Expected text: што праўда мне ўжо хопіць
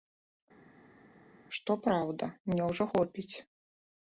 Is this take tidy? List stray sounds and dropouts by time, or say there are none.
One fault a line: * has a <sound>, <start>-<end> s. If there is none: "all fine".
all fine